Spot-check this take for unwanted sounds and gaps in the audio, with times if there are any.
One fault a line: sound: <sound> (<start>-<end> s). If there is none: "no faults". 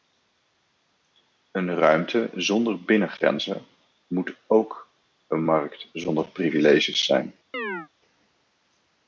sound: chirp (7.5-7.9 s)